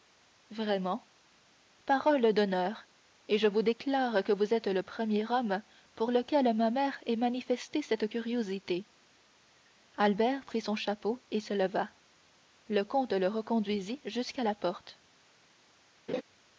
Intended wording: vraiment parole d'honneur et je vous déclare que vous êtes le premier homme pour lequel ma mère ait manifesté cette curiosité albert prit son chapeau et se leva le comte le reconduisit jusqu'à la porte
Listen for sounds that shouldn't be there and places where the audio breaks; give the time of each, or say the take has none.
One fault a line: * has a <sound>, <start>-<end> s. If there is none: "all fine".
* has a laugh, 16.1-16.2 s